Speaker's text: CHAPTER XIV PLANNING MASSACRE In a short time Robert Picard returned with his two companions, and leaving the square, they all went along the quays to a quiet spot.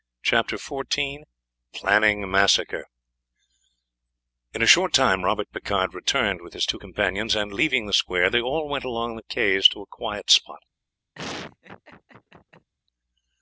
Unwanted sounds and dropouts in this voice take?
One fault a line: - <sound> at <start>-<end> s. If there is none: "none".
- laugh at 11.1-12.7 s